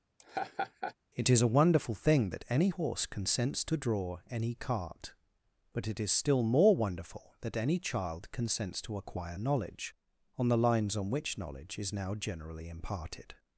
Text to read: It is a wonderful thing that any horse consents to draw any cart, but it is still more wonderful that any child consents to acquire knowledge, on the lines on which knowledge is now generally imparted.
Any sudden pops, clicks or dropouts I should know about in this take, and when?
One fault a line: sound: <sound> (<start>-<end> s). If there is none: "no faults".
sound: laugh (0.2-0.9 s)